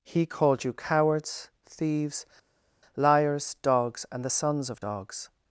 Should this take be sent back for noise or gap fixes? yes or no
no